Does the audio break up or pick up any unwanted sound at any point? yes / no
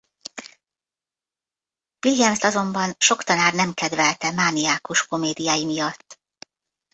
no